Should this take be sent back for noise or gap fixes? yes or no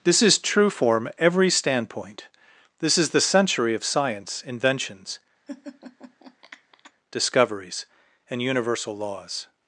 yes